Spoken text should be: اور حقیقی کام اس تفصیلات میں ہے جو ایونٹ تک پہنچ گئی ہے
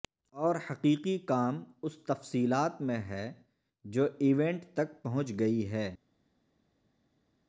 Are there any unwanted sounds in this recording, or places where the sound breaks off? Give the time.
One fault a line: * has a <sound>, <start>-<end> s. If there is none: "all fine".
all fine